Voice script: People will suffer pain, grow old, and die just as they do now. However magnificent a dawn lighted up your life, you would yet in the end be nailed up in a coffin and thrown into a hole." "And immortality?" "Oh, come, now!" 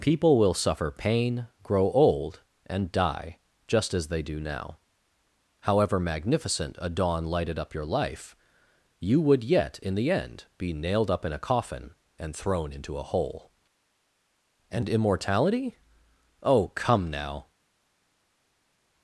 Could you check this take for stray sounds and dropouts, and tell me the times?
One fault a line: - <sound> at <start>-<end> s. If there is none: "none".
none